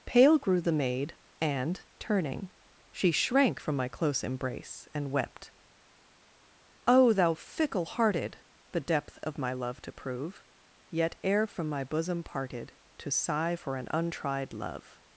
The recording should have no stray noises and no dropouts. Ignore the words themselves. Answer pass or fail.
pass